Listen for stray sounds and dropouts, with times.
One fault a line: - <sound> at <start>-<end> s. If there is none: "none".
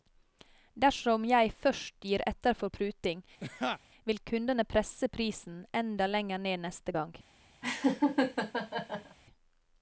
- laugh at 3.4-3.8 s
- laugh at 7.6-9.2 s